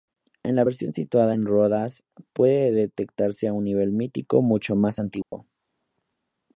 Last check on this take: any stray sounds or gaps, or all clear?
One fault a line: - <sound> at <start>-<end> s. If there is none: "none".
- dropout at 5.2-5.3 s